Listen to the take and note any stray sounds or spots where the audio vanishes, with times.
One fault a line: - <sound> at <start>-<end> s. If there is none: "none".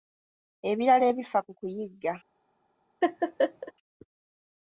- laugh at 3.0-3.7 s